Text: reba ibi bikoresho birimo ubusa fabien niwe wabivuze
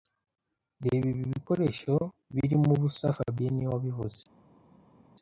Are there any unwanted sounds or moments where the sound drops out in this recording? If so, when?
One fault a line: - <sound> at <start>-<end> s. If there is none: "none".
none